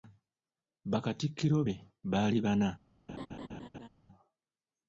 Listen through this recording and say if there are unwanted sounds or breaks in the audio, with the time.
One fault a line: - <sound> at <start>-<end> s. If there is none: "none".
- laugh at 3.1-3.9 s